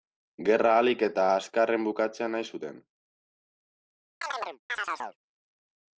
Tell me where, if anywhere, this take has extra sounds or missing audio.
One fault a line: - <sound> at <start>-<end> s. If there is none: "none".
- chirp at 4.2-5.2 s